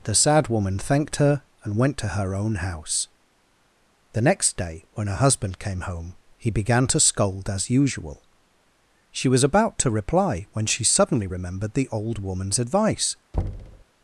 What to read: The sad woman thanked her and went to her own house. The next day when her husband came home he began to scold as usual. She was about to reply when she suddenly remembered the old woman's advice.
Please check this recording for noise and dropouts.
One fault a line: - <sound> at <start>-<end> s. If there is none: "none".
- thud at 13.3-13.8 s